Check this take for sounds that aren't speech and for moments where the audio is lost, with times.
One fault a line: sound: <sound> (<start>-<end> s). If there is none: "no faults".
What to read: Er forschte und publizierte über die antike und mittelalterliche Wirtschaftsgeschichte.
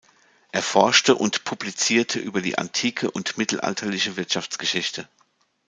no faults